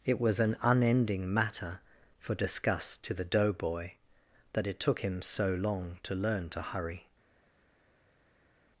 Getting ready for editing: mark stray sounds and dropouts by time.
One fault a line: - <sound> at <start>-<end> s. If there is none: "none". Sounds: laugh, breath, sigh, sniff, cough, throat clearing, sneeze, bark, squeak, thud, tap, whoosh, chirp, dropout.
none